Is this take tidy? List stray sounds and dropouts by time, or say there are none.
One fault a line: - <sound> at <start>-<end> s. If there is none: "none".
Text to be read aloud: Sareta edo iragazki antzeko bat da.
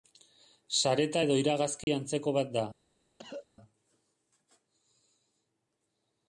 - dropout at 1.8-1.9 s
- cough at 3.2-3.5 s